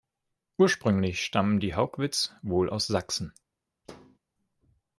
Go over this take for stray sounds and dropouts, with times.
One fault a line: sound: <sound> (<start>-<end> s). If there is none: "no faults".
sound: thud (3.8-4.2 s)